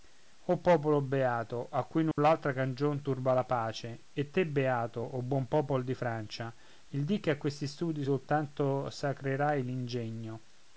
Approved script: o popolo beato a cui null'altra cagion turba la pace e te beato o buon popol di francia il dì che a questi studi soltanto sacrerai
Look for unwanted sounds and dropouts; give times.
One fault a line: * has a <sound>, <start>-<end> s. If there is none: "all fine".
* has a dropout, 2.1-2.2 s